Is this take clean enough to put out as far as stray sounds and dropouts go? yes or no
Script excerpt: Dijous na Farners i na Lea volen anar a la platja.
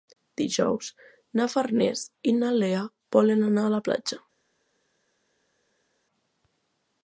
yes